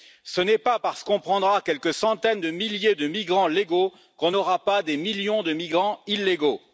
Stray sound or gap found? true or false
false